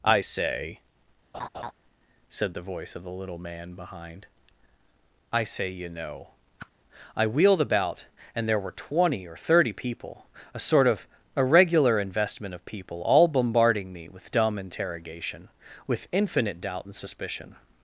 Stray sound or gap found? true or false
true